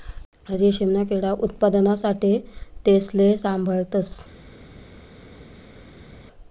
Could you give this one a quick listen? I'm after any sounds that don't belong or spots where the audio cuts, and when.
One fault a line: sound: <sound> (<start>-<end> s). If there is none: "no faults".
no faults